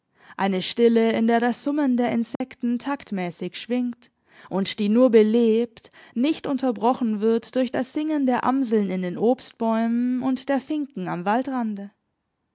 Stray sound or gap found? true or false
true